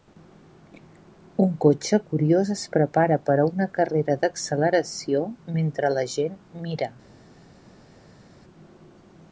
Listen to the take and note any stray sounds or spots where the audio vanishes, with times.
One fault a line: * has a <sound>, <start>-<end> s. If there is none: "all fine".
all fine